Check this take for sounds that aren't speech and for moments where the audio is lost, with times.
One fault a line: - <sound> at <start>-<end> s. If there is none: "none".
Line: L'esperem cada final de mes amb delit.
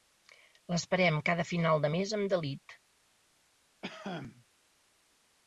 - cough at 3.8-4.5 s